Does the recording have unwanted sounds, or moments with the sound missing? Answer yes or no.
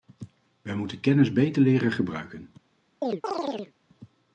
yes